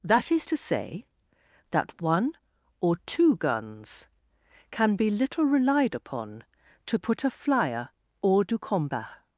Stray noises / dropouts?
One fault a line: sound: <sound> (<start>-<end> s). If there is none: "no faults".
no faults